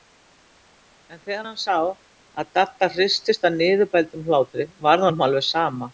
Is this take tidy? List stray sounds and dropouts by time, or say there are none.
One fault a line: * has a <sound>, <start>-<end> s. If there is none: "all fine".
all fine